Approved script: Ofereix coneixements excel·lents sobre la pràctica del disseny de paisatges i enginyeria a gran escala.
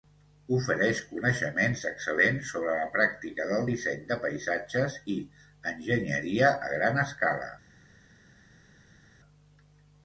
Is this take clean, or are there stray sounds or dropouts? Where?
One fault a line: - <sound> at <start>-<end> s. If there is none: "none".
none